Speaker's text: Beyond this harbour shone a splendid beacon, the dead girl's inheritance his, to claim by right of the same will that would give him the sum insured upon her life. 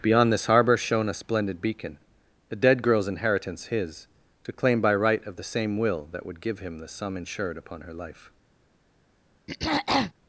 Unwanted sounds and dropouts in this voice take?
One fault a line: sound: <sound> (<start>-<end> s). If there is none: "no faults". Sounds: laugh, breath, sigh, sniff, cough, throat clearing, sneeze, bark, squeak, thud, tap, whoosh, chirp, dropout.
sound: throat clearing (9.5-10.1 s)